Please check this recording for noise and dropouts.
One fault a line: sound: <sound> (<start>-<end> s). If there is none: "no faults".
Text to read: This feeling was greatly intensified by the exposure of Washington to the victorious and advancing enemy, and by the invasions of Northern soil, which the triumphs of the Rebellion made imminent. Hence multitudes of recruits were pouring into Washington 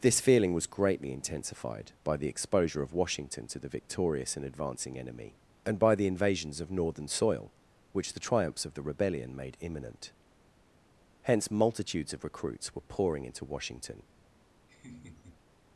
sound: laugh (14.7-15.4 s)